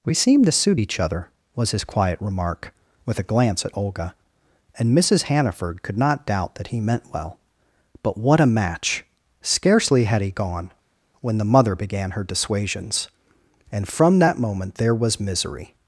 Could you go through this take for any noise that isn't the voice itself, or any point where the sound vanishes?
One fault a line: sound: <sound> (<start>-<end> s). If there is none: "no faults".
no faults